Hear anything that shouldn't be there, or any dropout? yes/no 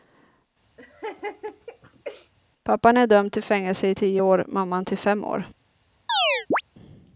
yes